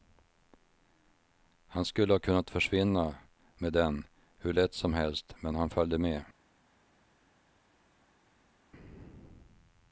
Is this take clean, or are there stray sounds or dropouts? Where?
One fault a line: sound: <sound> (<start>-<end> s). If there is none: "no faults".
no faults